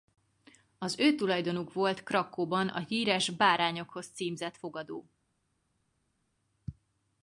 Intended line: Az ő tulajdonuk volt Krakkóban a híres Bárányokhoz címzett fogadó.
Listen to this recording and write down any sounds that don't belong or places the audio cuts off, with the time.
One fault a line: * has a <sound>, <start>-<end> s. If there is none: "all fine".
all fine